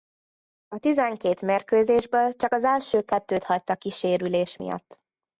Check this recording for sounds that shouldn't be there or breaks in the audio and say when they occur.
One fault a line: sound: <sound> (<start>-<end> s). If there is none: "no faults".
no faults